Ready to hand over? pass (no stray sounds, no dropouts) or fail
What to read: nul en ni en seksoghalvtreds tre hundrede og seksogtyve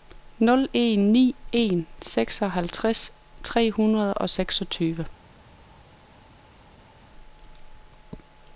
pass